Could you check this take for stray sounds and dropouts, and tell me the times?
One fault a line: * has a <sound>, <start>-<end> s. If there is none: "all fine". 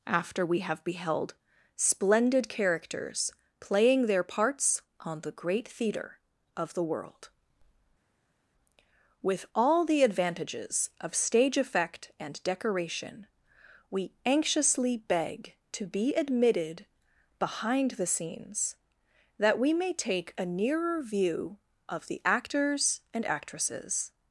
all fine